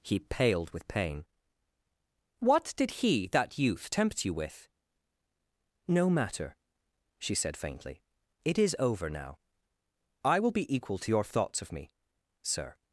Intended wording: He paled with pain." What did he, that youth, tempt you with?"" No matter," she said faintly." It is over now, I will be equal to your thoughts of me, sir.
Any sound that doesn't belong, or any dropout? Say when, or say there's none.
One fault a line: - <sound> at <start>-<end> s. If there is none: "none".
none